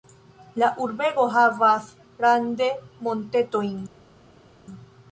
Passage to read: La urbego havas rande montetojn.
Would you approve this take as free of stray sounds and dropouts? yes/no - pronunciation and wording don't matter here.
yes